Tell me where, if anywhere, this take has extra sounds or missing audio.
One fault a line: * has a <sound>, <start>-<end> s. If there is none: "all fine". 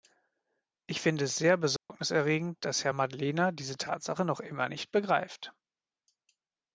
* has a dropout, 1.8-1.9 s